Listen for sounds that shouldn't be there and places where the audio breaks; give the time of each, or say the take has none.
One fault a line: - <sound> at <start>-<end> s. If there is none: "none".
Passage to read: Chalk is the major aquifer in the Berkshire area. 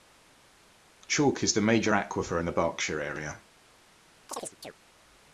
- chirp at 4.3-4.7 s